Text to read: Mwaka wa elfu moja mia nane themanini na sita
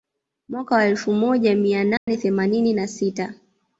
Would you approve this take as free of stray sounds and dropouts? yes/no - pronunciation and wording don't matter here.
no